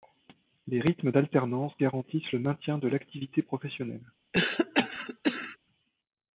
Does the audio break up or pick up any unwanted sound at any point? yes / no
yes